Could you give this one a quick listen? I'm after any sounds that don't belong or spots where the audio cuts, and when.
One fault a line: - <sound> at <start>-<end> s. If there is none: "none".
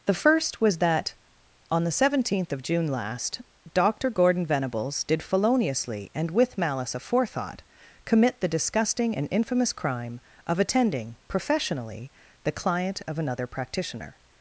none